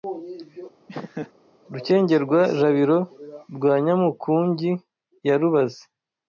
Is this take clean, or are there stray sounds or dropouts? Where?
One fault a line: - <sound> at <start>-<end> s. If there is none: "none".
- laugh at 0.9-1.3 s